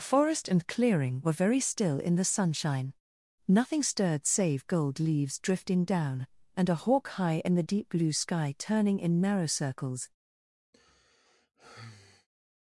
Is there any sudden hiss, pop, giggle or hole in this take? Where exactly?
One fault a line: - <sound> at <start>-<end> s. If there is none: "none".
- sigh at 10.7-12.3 s